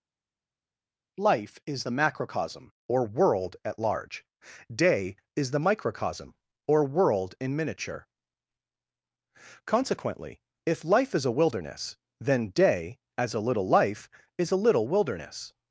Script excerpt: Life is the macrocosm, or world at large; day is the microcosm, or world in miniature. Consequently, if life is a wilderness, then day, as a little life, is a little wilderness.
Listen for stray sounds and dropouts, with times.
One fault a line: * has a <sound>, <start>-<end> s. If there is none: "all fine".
all fine